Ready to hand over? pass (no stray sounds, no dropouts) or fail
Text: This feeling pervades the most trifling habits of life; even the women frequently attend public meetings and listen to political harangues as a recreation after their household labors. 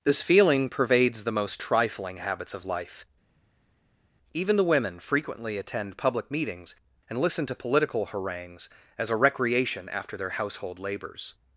pass